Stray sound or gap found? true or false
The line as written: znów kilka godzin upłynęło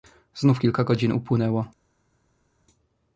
false